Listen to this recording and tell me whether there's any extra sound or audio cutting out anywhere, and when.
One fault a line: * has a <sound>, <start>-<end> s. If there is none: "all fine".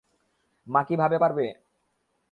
all fine